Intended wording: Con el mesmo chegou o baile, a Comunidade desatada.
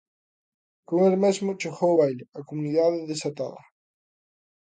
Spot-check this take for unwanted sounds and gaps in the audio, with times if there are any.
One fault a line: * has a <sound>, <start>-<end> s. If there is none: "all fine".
all fine